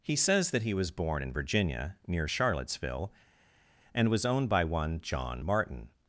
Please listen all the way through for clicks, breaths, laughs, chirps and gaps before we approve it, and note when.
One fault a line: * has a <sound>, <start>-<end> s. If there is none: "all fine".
all fine